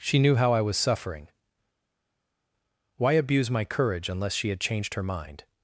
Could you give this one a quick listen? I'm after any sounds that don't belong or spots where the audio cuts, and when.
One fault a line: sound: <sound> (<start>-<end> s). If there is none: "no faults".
no faults